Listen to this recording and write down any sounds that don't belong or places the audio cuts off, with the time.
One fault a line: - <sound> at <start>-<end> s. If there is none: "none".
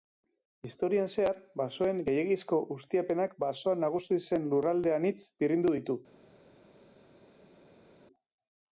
none